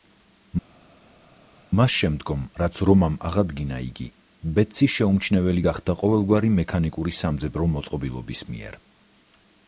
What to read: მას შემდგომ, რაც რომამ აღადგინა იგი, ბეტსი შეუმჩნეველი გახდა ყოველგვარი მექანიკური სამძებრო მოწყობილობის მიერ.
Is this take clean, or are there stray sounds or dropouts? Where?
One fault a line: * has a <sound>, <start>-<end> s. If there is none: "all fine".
all fine